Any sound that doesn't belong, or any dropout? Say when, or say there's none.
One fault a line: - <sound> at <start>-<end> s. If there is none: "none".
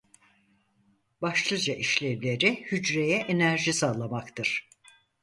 none